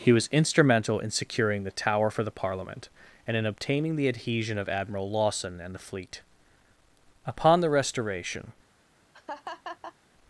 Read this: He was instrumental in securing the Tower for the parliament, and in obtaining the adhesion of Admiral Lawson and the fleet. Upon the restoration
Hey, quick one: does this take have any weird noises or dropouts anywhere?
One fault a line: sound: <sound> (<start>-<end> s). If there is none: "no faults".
sound: laugh (9.1-9.9 s)